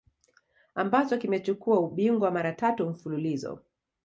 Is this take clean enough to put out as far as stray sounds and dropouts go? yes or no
yes